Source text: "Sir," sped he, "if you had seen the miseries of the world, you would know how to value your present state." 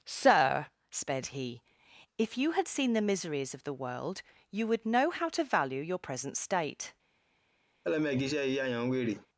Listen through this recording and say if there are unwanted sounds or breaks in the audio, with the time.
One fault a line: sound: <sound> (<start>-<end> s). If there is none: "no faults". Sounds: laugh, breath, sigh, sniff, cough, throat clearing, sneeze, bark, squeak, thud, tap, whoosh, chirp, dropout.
sound: laugh (7.8-9.3 s)